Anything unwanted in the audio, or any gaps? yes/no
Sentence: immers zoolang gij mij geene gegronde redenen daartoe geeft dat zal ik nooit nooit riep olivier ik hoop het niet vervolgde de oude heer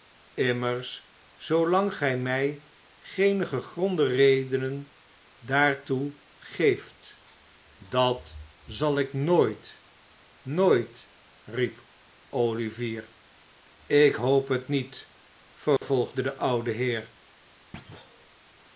yes